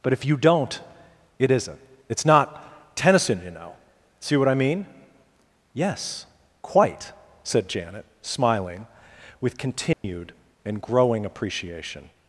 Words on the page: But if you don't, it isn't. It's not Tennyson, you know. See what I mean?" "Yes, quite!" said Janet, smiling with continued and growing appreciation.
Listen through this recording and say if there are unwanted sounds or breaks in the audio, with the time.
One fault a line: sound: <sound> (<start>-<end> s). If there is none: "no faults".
sound: dropout (9.9-10.0 s)